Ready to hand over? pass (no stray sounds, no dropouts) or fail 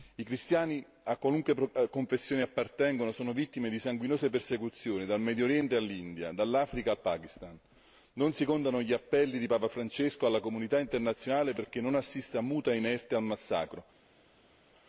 pass